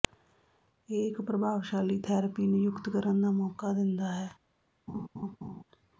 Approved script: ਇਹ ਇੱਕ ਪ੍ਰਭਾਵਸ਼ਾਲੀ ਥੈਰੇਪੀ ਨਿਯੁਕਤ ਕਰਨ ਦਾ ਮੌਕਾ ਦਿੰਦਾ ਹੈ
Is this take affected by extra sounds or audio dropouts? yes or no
yes